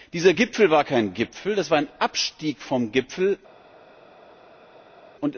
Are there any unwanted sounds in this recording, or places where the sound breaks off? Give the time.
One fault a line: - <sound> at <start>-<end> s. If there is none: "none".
none